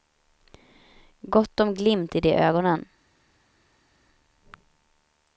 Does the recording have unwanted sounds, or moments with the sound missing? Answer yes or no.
no